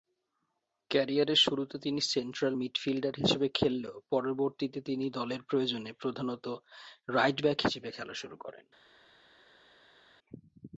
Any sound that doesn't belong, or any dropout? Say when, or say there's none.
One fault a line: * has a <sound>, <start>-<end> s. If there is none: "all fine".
all fine